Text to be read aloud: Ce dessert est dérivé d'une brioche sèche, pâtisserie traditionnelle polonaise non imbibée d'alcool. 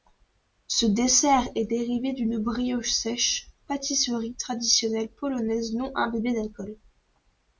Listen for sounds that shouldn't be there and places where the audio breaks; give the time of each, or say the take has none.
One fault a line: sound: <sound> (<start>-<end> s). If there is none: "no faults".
no faults